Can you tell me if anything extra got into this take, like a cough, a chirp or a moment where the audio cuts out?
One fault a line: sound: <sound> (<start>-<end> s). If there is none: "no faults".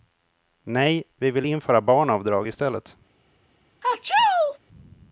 sound: sneeze (3.8-4.6 s)